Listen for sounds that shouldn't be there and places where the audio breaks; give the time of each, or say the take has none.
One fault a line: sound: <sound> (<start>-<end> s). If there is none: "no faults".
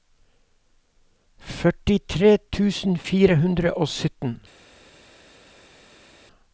no faults